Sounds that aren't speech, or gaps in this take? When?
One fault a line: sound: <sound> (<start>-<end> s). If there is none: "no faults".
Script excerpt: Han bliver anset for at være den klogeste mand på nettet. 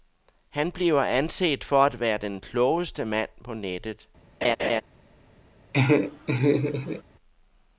sound: laugh (4.4-4.8 s)
sound: laugh (5.7-7.0 s)